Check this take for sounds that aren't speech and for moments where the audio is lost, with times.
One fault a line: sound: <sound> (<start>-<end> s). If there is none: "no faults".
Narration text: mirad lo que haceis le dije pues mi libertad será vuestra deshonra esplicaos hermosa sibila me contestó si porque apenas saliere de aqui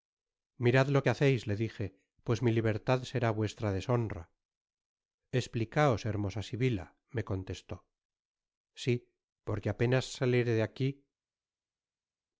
no faults